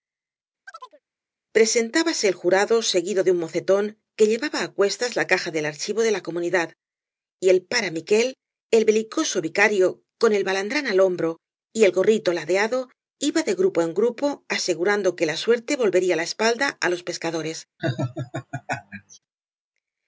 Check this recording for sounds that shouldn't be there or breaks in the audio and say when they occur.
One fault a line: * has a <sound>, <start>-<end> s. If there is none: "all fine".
* has a chirp, 0.7-1.0 s
* has a laugh, 17.8-19.2 s